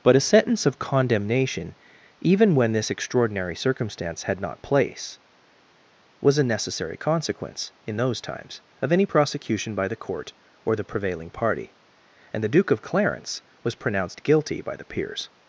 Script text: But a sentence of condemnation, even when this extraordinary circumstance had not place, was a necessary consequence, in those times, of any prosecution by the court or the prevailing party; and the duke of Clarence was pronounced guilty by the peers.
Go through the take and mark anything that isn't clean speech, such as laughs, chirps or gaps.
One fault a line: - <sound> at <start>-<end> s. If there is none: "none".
none